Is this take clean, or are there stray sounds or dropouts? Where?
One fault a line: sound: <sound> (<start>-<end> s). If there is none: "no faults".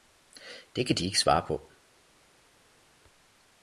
no faults